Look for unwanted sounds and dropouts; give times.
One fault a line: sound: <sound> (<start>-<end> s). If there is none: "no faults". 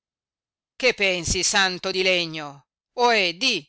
no faults